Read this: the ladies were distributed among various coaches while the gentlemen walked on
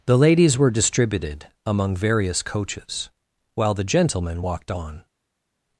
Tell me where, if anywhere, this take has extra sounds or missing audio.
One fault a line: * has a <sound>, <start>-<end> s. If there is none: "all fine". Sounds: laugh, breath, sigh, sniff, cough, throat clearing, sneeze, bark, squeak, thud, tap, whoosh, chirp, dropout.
all fine